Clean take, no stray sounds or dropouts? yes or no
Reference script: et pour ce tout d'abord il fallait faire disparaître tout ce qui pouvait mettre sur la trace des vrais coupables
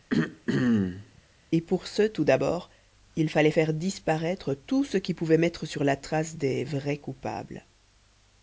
no